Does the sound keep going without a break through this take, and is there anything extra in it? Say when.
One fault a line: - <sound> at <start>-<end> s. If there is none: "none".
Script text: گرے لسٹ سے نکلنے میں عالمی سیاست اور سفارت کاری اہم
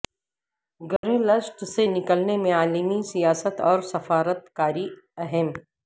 - dropout at 1.0-1.0 s